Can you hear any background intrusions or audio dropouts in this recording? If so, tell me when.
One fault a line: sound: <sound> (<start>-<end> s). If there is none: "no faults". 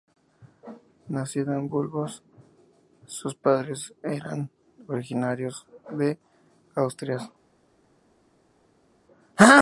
no faults